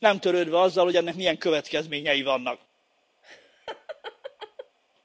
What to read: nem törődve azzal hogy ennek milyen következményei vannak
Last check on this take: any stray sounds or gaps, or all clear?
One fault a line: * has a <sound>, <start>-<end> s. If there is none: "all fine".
* has a laugh, 3.2-4.8 s